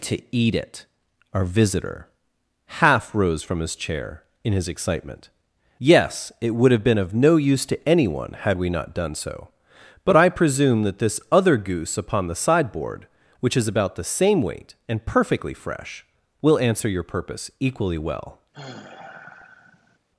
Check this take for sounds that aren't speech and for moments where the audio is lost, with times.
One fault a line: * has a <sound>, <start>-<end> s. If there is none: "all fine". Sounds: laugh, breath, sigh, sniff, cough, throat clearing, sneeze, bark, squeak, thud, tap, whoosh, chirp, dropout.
* has a sigh, 18.5-20.0 s